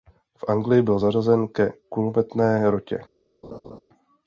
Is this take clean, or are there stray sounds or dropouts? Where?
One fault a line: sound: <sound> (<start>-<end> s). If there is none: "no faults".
sound: laugh (3.4-3.8 s)